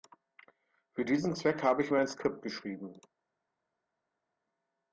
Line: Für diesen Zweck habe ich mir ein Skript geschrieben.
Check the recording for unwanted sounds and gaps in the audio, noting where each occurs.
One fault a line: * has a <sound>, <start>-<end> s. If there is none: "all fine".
all fine